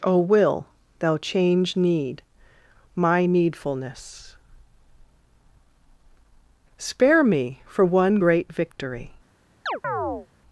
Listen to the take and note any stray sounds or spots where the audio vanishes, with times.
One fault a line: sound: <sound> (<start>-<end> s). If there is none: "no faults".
sound: chirp (9.7-10.3 s)